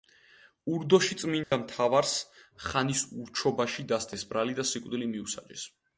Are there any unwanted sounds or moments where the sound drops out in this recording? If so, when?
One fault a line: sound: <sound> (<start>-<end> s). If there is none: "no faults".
sound: dropout (1.4-1.5 s)